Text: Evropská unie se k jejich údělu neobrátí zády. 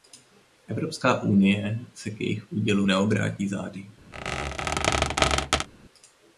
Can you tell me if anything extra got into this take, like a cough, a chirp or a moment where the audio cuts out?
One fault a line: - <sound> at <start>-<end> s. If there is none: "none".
- squeak at 4.1-5.7 s